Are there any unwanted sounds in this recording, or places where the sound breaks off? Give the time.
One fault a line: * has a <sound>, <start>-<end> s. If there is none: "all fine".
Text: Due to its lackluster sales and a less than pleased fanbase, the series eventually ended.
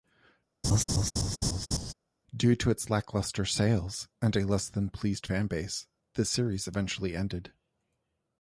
* has a laugh, 0.6-1.9 s